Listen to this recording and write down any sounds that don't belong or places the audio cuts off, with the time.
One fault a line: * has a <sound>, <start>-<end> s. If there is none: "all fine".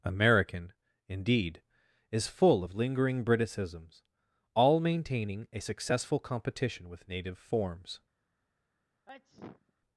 * has a sneeze, 9.1-9.7 s